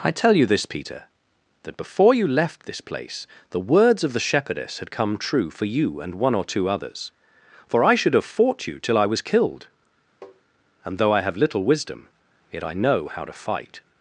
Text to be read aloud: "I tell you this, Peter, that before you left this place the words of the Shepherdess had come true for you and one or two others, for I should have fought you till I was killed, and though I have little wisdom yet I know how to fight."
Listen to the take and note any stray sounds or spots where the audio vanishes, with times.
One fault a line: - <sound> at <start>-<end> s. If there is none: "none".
- tap at 10.2-10.4 s